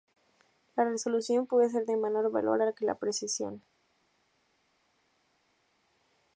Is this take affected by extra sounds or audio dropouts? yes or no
no